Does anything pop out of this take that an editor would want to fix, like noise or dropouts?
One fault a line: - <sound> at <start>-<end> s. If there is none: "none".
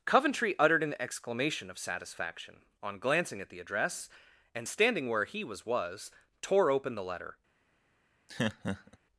- laugh at 8.3-9.0 s